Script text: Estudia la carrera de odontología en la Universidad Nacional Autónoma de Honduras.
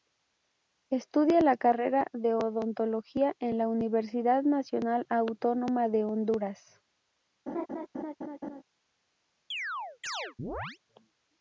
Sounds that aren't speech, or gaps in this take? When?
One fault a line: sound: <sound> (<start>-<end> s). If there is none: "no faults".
sound: laugh (7.5-8.6 s)
sound: chirp (9.5-10.8 s)